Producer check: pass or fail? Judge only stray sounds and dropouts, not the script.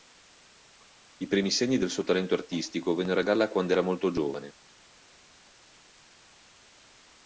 pass